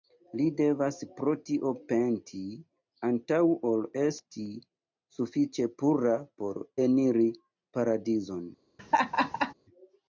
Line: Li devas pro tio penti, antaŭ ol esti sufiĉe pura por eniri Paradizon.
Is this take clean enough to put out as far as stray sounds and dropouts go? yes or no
no